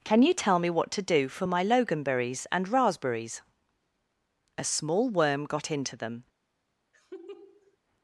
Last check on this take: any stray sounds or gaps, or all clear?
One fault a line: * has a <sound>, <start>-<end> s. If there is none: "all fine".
* has a laugh, 6.9-7.8 s